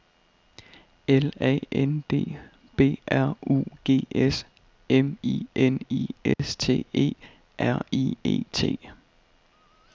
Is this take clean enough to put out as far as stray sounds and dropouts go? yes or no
no